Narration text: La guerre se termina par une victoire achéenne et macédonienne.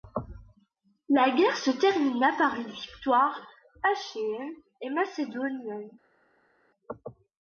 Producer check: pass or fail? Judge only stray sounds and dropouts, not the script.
pass